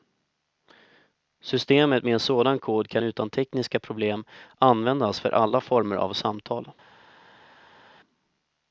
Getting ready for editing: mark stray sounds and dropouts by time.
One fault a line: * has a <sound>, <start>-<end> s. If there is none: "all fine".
all fine